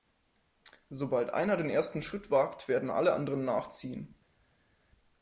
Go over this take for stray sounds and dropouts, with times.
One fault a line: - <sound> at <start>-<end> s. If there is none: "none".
none